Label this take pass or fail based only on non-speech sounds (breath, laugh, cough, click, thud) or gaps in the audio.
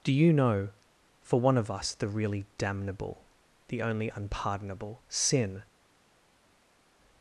pass